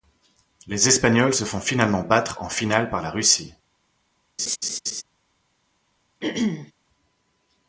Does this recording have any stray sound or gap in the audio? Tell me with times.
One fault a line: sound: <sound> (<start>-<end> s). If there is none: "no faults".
sound: laugh (4.4-5.0 s)
sound: throat clearing (6.2-6.7 s)